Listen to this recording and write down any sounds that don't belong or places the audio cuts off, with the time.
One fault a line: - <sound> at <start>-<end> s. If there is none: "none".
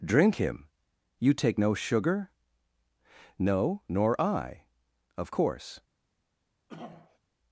- throat clearing at 6.7-7.2 s